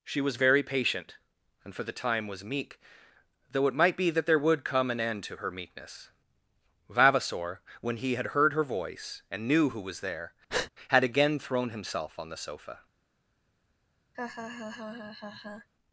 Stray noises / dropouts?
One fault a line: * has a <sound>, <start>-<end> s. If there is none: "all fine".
* has a breath, 10.5-10.7 s
* has a laugh, 14.1-15.7 s